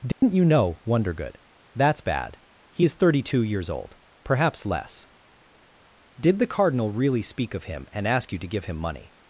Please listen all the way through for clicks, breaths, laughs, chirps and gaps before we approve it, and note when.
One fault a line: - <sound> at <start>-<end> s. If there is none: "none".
- dropout at 0.1-0.2 s